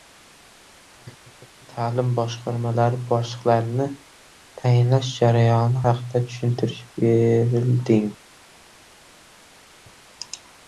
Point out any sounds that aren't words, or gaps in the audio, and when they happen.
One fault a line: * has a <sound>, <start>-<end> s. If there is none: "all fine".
all fine